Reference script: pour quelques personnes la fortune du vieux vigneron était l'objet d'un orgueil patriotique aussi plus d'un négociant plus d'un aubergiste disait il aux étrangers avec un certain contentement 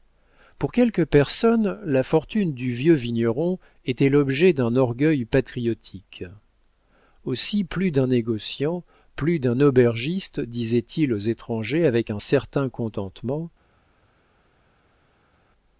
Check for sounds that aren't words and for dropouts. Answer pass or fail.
pass